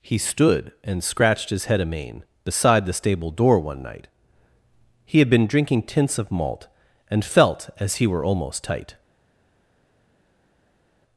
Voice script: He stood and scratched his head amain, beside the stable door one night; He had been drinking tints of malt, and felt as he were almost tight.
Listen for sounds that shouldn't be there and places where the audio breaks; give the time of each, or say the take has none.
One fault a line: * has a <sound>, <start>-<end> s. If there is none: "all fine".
all fine